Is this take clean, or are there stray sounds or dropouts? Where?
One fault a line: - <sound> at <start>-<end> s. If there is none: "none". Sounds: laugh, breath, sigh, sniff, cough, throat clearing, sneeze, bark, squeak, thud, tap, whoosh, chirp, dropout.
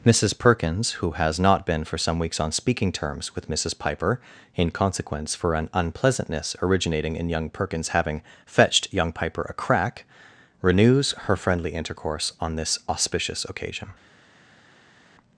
none